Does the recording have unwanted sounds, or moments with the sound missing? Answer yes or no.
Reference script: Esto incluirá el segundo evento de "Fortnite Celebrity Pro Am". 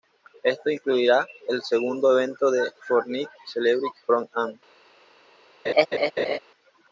yes